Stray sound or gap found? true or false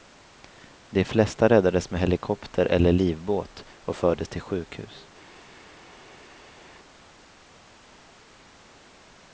false